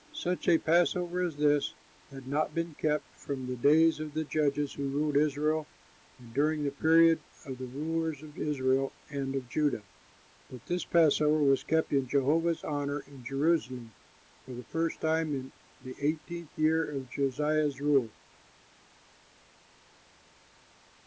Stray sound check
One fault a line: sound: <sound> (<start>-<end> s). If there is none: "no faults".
no faults